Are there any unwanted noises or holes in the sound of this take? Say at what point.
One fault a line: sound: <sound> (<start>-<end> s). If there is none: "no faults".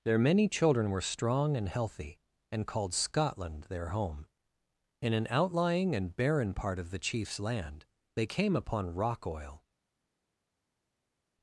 no faults